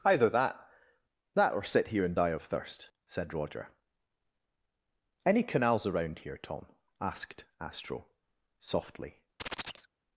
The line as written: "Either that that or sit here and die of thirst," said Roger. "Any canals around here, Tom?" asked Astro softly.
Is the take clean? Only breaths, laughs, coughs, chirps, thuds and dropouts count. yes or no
no